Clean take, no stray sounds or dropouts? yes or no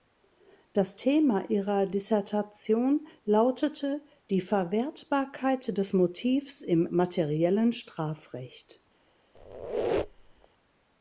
no